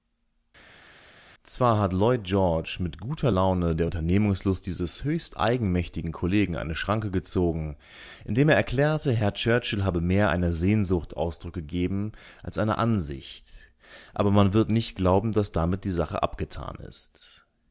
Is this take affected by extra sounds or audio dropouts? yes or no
no